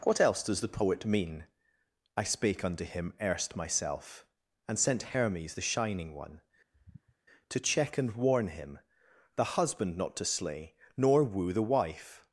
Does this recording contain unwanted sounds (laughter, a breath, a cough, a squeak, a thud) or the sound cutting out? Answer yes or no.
yes